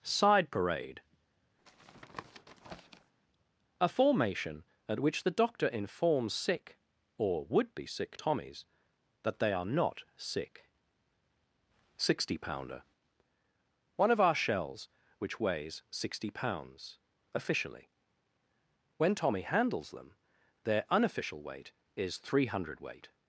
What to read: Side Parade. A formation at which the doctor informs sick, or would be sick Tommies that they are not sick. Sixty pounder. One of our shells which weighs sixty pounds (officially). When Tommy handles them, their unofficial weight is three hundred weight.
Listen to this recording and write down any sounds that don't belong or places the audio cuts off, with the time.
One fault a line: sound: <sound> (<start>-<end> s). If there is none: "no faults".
sound: tap (1.6-3.1 s)